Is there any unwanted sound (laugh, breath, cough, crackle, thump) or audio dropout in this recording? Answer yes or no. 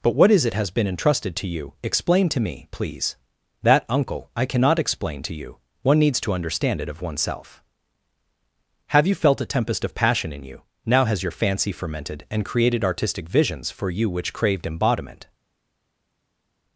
no